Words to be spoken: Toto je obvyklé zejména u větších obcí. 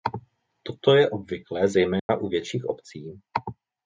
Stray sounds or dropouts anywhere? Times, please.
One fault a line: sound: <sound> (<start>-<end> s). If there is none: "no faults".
sound: dropout (2.0-2.1 s)